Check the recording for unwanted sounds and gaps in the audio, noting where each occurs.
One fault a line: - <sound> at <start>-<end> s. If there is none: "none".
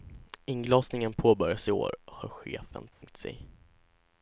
- dropout at 2.9-3.0 s